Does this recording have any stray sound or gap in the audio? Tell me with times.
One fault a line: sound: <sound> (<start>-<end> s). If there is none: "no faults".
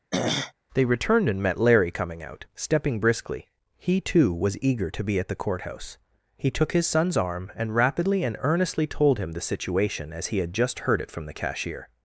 sound: throat clearing (0.1-0.5 s)